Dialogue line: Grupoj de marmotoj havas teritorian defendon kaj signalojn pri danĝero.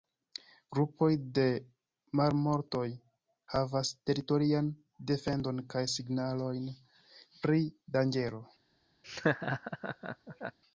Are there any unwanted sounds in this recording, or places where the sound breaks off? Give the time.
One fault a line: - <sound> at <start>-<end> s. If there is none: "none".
- laugh at 9.0-10.6 s